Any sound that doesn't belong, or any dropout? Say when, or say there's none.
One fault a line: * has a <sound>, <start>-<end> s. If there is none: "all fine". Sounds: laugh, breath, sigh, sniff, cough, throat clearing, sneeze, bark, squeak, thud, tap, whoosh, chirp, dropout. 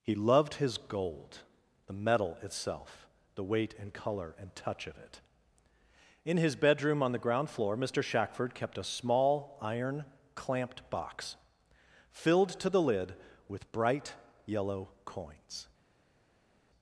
all fine